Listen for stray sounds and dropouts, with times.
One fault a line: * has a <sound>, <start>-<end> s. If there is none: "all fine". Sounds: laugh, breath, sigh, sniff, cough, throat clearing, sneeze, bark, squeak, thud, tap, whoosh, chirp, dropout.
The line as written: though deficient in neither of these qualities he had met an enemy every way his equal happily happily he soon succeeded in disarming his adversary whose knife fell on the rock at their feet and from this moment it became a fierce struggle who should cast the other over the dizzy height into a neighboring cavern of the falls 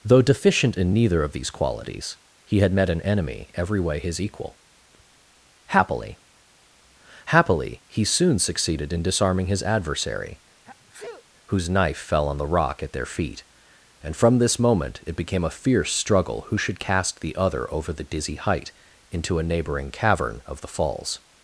* has a sneeze, 10.6-11.2 s